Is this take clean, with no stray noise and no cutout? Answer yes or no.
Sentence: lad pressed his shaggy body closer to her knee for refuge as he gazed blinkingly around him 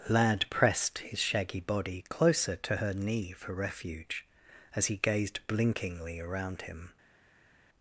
yes